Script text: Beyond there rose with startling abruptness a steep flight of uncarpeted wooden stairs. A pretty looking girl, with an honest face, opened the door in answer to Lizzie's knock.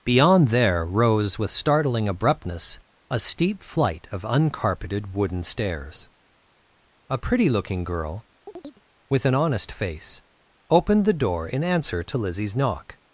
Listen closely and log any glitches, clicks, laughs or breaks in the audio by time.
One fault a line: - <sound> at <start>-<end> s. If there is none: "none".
- chirp at 8.5-8.8 s